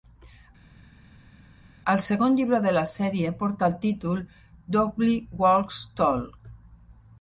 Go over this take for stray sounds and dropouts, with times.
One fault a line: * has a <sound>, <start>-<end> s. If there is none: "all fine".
all fine